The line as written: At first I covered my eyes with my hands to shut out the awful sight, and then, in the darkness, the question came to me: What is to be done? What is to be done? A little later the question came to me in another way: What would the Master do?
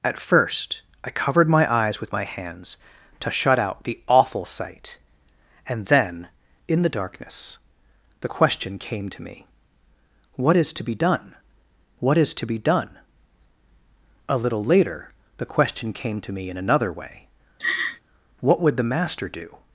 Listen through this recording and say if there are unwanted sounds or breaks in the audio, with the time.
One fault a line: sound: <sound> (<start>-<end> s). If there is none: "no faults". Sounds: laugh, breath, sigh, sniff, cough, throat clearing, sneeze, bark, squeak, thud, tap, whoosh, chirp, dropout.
sound: laugh (17.6-18.0 s)